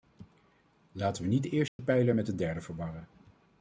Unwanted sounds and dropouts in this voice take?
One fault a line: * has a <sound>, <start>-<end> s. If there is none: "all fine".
* has a dropout, 1.7-1.8 s